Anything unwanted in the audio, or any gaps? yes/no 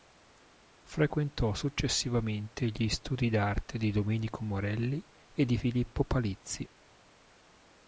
no